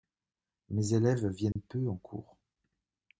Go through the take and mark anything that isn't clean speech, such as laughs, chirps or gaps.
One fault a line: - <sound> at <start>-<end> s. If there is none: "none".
- dropout at 1.5-1.6 s